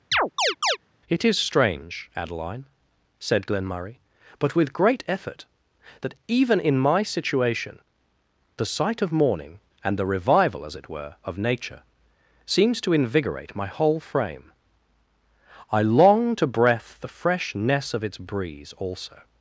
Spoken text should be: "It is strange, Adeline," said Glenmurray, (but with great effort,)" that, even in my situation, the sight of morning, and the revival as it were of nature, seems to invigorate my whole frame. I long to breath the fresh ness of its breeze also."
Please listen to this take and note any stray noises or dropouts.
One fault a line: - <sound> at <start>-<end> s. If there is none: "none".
- chirp at 0.1-0.8 s